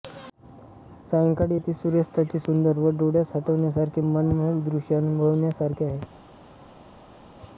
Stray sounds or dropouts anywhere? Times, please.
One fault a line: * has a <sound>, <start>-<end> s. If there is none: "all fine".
all fine